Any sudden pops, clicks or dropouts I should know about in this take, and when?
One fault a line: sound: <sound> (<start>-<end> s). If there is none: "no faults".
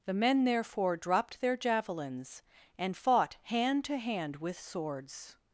no faults